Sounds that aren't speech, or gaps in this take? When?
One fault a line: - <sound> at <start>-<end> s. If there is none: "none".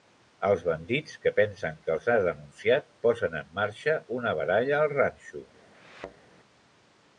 - thud at 5.7-6.2 s